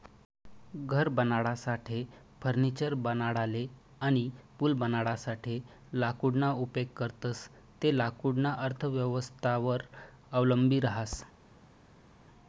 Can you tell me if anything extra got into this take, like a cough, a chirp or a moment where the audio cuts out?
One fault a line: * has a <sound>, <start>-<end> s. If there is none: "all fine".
all fine